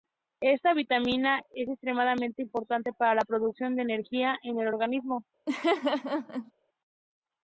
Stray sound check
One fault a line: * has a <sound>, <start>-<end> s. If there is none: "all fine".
* has a laugh, 5.5-6.5 s